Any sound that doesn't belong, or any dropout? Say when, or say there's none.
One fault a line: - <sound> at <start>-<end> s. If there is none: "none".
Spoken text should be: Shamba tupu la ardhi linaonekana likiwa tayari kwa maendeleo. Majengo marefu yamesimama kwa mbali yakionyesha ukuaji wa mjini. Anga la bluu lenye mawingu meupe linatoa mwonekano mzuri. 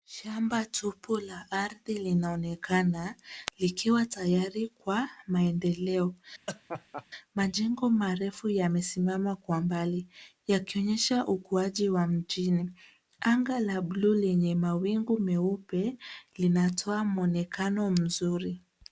- laugh at 6.5-7.1 s